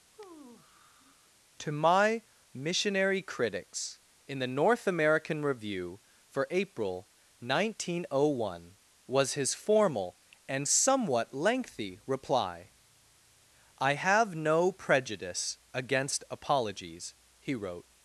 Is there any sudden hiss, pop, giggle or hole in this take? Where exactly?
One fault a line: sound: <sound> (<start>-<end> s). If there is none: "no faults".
sound: sigh (0.1-1.3 s)